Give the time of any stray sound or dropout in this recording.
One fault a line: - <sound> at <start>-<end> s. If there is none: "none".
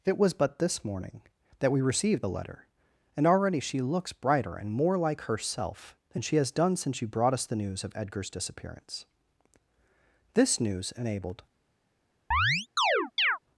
- chirp at 12.3-13.4 s